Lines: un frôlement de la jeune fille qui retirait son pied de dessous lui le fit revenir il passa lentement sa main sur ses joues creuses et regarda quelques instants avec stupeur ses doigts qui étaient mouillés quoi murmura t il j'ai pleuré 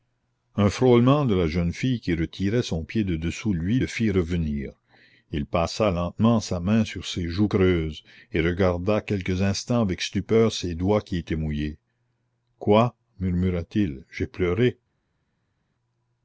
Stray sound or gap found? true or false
false